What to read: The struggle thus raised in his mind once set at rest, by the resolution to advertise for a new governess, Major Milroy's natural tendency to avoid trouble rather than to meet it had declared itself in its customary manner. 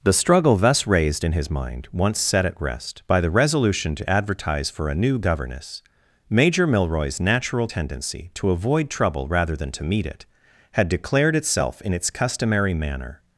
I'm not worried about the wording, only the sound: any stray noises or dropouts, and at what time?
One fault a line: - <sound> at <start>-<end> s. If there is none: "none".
none